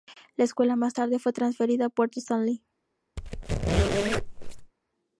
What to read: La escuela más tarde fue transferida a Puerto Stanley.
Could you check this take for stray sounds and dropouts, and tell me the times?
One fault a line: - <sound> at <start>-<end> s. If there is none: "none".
- squeak at 3.2-4.7 s